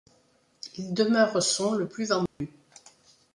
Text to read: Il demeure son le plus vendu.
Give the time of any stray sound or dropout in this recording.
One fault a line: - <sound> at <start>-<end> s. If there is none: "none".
- dropout at 2.3-2.4 s